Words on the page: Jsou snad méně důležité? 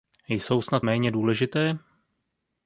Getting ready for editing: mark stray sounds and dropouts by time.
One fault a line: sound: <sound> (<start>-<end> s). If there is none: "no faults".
no faults